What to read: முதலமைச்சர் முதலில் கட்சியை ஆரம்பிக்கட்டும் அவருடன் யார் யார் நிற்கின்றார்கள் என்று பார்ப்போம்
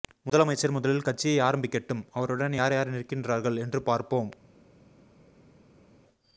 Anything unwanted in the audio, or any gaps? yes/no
no